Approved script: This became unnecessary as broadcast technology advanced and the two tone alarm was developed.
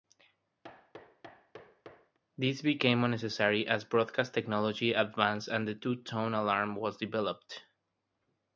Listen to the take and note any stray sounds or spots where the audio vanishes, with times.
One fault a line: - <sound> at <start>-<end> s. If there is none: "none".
- thud at 0.6-2.2 s